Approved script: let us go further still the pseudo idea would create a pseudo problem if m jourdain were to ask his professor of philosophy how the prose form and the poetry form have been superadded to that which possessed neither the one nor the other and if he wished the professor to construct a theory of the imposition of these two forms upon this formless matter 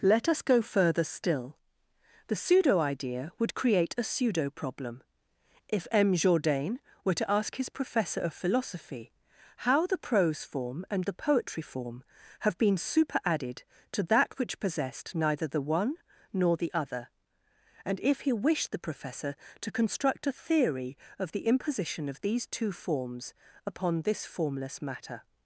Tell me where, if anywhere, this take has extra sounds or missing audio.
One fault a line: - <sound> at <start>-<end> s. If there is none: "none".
none